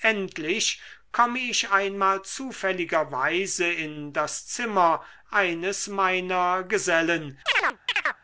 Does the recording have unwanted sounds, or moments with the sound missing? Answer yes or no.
yes